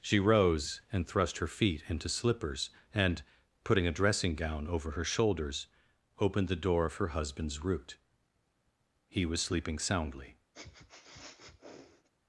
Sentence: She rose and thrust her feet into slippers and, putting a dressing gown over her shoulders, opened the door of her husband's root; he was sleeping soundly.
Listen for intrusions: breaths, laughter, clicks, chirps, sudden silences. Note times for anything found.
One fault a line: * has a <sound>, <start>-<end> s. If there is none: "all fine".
* has a sniff, 10.5-12.1 s